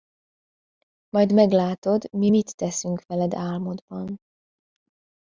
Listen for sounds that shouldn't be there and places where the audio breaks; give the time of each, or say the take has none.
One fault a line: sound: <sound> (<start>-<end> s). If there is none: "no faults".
no faults